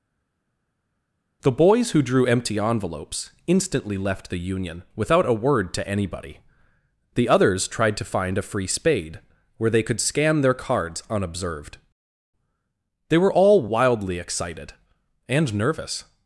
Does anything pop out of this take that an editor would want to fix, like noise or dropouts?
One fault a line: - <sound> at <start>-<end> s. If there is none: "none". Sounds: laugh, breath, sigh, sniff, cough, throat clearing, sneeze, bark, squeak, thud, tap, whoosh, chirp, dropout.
none